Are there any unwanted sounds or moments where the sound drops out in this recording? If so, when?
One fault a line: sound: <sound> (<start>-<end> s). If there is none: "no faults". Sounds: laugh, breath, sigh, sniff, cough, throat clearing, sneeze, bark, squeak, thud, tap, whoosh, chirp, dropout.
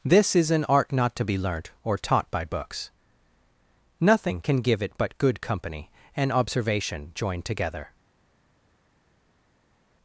no faults